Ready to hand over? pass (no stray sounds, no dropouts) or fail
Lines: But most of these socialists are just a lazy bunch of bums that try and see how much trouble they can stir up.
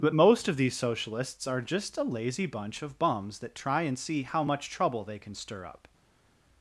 pass